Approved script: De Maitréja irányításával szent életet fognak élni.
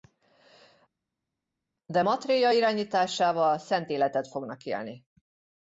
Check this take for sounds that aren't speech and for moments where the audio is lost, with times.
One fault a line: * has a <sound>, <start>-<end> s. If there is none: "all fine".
all fine